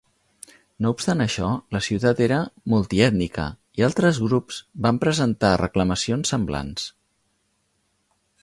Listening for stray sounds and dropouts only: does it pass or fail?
pass